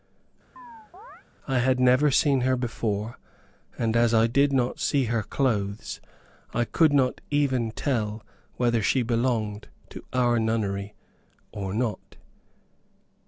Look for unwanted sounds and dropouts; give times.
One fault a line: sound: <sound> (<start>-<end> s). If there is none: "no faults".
sound: chirp (0.6-1.2 s)